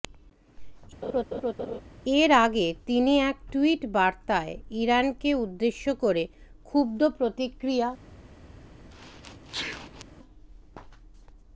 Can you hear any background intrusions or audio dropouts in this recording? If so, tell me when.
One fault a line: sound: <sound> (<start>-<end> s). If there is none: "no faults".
sound: laugh (1.0-1.8 s)
sound: sneeze (8.9-10.0 s)